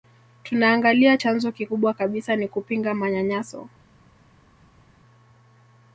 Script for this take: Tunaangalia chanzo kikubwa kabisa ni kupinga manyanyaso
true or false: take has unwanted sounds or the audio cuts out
false